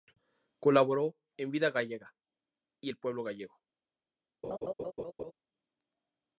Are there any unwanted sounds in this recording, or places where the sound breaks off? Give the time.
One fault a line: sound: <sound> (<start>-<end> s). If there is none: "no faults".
sound: laugh (4.4-5.3 s)